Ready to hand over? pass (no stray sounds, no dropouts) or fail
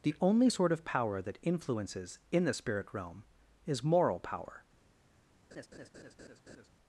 fail